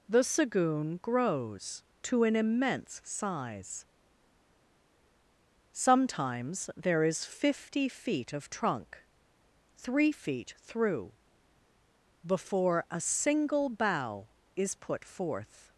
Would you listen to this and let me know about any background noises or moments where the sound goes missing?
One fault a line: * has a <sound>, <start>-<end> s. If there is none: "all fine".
all fine